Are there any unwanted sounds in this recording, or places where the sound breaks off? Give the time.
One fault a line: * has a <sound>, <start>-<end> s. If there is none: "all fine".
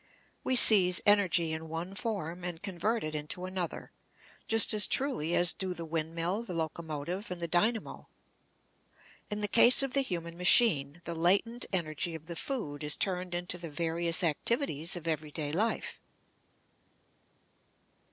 all fine